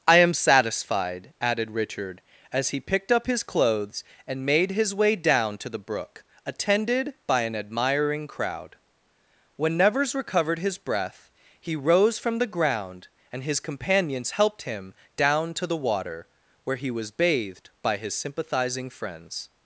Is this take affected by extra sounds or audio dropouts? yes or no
no